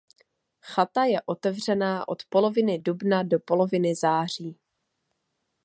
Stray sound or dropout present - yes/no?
no